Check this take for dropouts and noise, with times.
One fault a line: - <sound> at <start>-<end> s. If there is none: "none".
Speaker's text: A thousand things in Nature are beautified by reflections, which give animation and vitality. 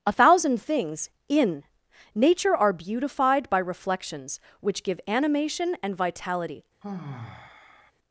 - sigh at 6.8-7.9 s